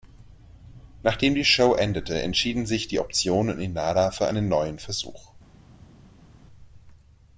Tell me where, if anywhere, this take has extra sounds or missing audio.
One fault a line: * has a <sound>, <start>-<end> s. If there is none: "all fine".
all fine